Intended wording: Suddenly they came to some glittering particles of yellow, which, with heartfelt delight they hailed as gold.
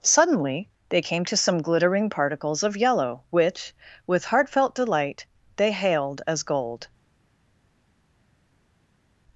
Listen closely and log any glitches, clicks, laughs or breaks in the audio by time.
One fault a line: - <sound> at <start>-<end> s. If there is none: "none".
none